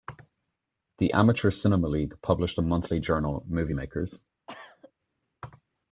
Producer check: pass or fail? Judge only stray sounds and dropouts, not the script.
fail